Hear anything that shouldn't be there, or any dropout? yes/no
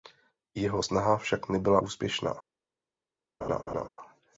yes